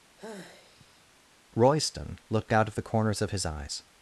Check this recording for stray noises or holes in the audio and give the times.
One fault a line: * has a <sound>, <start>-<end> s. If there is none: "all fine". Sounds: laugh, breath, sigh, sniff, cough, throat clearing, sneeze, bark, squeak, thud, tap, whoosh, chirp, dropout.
* has a sigh, 0.2-1.1 s